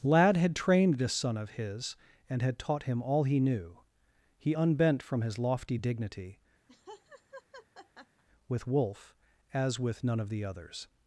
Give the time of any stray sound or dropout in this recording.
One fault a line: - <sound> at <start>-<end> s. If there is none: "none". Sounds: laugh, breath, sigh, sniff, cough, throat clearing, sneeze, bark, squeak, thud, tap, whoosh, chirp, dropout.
- laugh at 6.7-8.2 s